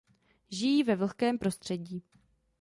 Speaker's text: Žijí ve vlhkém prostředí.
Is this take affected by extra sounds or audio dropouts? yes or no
no